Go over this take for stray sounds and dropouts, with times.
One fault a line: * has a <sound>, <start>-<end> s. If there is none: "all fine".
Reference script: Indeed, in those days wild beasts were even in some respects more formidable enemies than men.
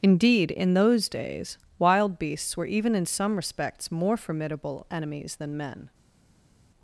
all fine